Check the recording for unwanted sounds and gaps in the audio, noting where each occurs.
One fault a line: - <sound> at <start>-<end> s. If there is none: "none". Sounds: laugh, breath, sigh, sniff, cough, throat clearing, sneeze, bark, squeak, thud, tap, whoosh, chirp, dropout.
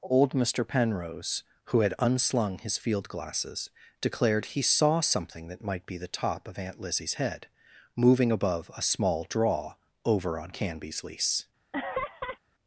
- laugh at 11.7-12.4 s